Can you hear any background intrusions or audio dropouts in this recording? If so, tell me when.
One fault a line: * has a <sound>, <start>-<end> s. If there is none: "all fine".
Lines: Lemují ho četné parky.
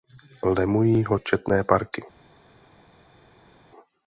all fine